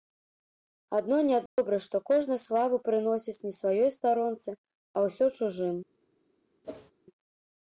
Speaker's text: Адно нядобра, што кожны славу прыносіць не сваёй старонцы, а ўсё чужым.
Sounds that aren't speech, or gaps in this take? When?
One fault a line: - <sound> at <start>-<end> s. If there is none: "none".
- dropout at 1.5-1.6 s
- whoosh at 6.6-6.9 s